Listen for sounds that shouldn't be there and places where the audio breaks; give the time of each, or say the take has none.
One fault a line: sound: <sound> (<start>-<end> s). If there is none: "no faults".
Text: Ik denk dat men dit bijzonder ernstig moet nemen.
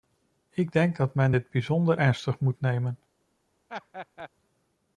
sound: laugh (3.7-4.3 s)